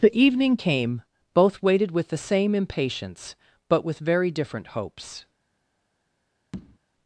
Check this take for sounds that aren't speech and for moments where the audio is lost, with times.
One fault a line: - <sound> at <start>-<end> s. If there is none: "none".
- tap at 6.5-6.8 s